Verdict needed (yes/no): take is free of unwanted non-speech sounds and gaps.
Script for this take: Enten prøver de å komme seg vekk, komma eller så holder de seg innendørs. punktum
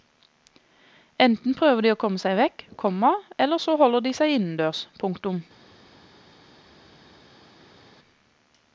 yes